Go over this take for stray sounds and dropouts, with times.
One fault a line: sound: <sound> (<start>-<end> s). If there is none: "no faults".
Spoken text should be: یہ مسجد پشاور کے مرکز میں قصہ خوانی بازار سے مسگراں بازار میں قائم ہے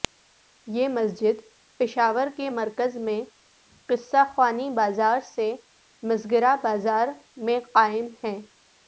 no faults